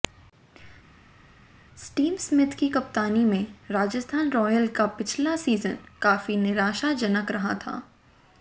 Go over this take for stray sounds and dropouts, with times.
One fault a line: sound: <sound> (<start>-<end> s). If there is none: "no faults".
no faults